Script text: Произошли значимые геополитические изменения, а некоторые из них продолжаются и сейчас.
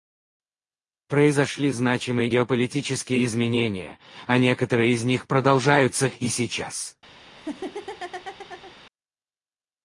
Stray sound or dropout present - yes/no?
yes